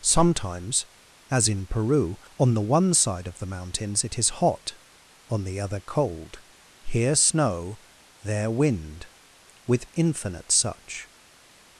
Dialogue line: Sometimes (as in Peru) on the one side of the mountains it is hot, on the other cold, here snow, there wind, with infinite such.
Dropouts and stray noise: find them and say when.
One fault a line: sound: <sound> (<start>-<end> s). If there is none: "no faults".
no faults